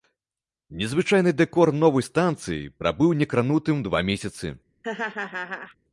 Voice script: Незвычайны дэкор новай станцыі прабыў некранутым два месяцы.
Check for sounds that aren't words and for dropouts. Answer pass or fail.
fail